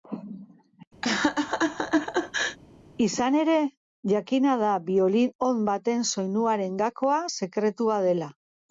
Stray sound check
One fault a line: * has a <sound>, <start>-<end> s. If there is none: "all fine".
* has a laugh, 1.0-2.6 s